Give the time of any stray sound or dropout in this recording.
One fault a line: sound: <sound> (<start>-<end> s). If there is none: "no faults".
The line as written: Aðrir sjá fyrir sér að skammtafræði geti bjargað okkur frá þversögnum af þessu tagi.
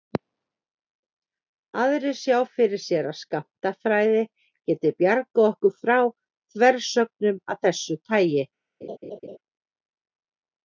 sound: laugh (8.8-9.4 s)